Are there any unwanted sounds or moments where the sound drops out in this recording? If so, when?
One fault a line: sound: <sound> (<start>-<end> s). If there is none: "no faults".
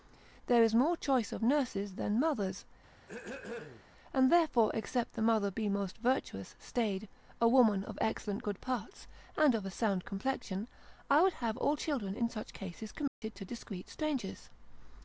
sound: throat clearing (3.0-3.9 s)
sound: dropout (13.1-13.2 s)